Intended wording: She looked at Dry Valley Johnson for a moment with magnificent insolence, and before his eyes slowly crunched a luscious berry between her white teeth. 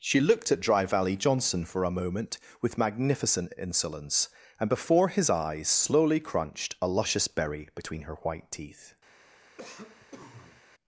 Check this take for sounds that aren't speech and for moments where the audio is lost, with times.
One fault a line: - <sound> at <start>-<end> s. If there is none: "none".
- cough at 9.6-10.6 s